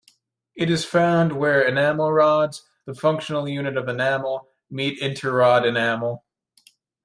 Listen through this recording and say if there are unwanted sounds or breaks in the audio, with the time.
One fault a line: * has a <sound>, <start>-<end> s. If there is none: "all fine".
all fine